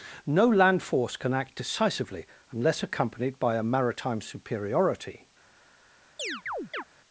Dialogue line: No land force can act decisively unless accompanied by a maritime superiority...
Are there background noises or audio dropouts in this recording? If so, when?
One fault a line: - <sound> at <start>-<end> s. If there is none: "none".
- chirp at 6.2-6.8 s